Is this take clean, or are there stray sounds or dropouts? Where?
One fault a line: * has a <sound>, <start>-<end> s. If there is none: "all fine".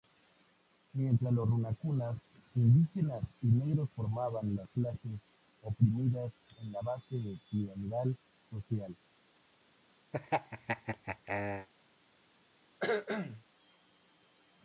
* has a laugh, 10.1-11.7 s
* has a cough, 12.8-13.4 s